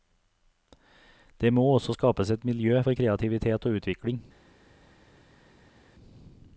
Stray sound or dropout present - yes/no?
no